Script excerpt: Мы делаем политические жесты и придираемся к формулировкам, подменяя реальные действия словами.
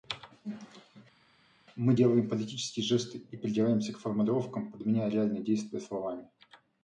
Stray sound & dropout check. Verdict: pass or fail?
pass